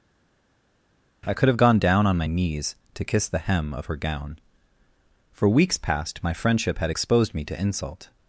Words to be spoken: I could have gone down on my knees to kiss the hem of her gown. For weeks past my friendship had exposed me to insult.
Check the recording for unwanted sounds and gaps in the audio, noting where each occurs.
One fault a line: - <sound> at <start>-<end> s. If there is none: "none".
none